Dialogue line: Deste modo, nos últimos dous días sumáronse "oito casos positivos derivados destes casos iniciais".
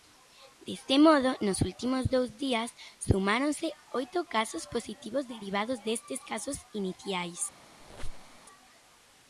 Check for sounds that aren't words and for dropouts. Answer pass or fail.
fail